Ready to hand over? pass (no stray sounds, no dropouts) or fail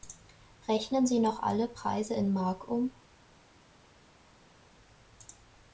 pass